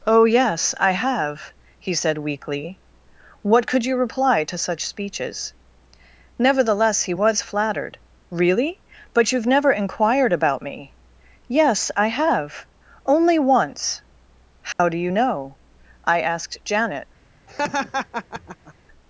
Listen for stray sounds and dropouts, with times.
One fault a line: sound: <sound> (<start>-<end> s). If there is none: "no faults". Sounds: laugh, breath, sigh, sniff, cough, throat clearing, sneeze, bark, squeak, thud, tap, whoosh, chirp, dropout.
sound: dropout (14.7-14.8 s)
sound: laugh (17.5-18.7 s)